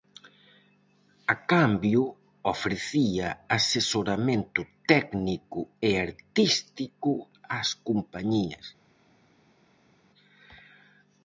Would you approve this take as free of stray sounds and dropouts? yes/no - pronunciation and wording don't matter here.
yes